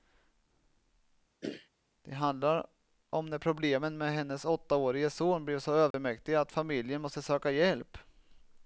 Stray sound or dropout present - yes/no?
yes